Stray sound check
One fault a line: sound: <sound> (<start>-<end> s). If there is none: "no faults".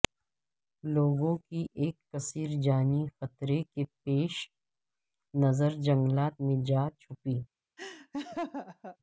sound: laugh (7.8-9.0 s)